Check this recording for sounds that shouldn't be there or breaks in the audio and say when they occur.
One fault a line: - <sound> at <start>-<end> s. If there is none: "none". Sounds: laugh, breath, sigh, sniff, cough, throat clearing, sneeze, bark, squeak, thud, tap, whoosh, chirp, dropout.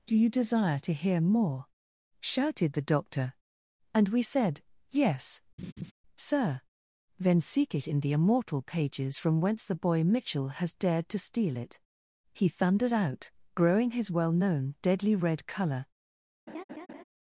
- laugh at 5.6-5.9 s
- laugh at 16.5-17.0 s